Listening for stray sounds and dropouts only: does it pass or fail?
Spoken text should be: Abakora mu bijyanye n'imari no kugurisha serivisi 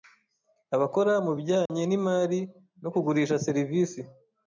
fail